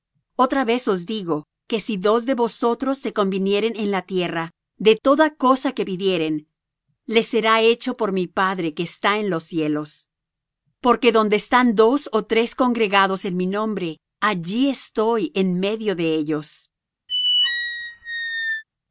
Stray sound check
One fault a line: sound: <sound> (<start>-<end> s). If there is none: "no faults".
sound: squeak (17.1-18.6 s)